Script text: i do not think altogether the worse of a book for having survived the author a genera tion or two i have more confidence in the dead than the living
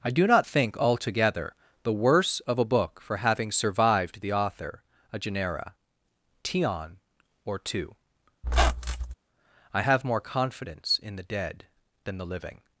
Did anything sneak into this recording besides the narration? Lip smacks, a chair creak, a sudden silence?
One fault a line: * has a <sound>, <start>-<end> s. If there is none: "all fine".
* has a squeak, 8.4-9.1 s